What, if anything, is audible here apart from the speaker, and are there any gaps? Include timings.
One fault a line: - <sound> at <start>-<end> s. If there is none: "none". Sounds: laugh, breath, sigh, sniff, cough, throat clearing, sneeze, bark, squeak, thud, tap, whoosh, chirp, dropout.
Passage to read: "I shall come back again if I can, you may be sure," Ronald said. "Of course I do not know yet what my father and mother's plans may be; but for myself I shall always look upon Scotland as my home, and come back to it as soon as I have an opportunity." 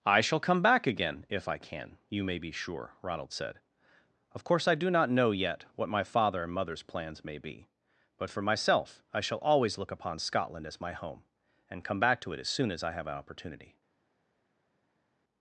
none